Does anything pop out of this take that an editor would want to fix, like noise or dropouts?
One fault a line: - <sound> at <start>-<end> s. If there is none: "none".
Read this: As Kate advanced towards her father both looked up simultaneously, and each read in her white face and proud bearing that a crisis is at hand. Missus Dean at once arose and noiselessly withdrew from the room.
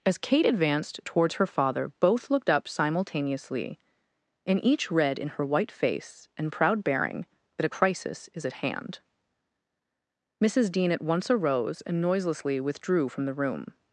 none